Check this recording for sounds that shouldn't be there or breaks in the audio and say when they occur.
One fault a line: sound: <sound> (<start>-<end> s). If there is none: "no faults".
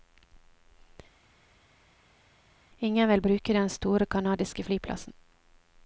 no faults